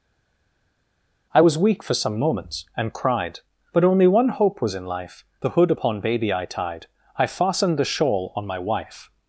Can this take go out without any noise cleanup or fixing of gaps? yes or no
yes